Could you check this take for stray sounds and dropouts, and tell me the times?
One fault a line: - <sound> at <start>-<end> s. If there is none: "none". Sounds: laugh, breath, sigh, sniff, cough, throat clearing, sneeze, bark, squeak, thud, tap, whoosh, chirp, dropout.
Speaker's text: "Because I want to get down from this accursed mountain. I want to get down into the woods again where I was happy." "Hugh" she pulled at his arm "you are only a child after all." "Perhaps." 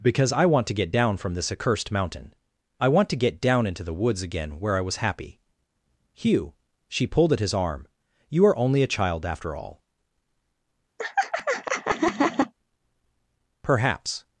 - laugh at 11.0-12.5 s